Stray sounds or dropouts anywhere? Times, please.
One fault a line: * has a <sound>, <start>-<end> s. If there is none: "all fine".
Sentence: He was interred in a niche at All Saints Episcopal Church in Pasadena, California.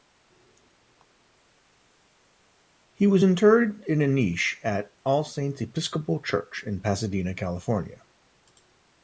all fine